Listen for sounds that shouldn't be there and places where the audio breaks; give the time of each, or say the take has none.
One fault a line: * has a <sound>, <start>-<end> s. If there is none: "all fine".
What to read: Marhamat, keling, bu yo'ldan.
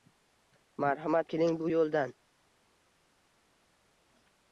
all fine